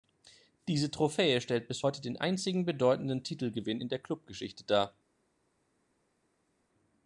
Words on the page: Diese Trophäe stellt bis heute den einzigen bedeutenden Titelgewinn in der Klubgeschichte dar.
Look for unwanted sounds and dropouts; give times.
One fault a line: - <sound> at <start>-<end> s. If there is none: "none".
none